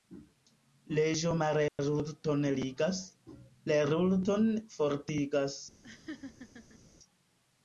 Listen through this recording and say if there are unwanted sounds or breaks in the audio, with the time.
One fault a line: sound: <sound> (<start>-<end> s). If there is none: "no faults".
sound: dropout (1.7-1.8 s)
sound: laugh (5.8-6.8 s)